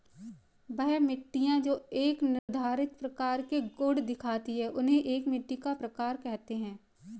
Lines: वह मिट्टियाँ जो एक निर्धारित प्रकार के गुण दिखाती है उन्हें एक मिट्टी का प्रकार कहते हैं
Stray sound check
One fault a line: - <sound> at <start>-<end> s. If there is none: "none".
- dropout at 2.4-2.5 s